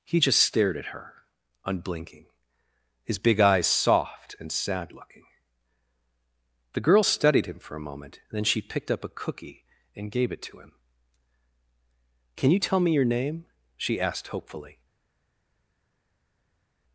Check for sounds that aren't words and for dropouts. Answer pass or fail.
pass